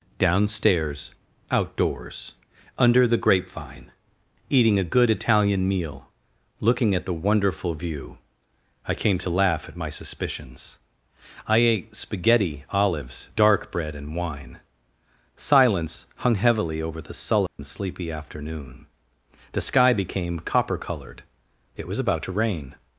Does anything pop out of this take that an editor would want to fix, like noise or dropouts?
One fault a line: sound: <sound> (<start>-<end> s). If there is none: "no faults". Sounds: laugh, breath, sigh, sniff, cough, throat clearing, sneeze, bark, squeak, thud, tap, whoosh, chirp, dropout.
sound: dropout (17.5-17.6 s)